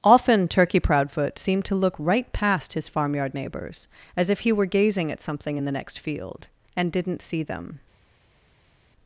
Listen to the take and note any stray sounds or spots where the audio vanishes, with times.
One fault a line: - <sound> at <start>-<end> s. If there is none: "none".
none